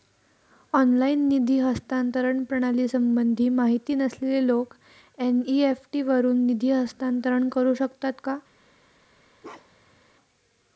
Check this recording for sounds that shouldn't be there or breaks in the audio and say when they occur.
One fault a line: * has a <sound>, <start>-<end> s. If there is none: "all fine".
* has a bark, 9.4-10.0 s